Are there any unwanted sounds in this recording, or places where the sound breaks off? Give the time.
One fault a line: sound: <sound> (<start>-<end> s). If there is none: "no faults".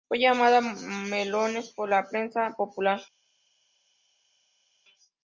no faults